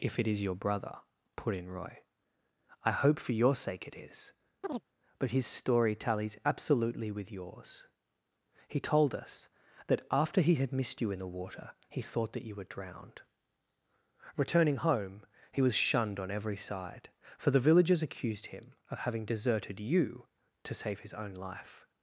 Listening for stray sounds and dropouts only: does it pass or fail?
fail